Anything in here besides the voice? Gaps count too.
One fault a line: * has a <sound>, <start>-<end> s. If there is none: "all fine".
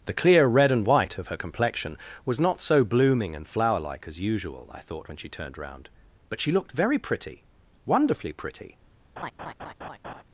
* has a laugh, 9.2-10.2 s